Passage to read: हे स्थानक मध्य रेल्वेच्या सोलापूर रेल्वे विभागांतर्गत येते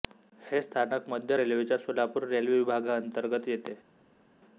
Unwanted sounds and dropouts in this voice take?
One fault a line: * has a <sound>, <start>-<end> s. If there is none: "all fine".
all fine